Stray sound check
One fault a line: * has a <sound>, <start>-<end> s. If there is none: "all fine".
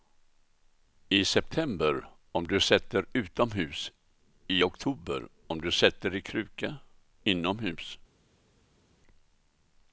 all fine